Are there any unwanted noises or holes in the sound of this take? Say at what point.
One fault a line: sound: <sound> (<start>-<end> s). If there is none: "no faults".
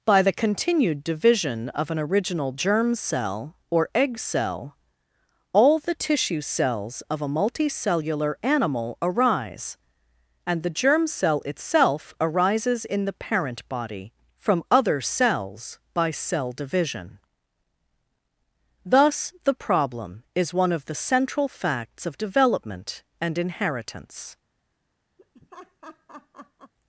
sound: laugh (25.2-26.7 s)